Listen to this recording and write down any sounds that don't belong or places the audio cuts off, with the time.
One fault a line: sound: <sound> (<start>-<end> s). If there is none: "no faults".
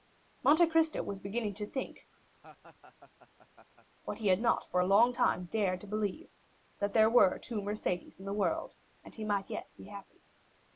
sound: laugh (2.3-3.9 s)